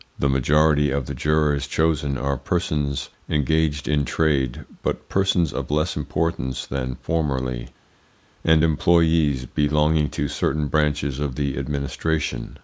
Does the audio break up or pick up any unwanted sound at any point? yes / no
no